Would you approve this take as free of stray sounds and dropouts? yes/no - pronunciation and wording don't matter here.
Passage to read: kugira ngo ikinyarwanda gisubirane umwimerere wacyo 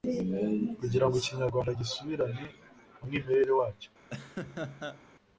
no